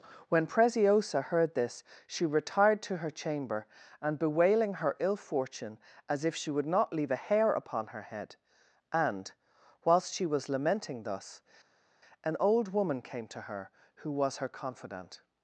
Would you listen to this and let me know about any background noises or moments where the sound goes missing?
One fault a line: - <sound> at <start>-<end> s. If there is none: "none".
none